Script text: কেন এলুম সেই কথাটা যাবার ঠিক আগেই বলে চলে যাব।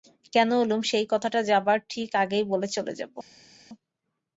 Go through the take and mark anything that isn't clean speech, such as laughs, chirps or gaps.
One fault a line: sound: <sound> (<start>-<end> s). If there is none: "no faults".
no faults